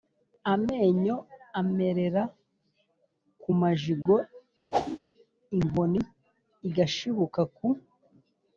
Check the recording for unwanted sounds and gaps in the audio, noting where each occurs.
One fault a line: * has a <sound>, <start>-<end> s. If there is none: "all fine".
* has a dropout, 4.0-4.1 s
* has a whoosh, 4.7-5.0 s